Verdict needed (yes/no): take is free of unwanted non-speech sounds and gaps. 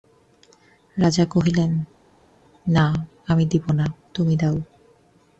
yes